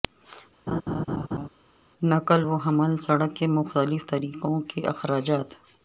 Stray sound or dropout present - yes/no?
yes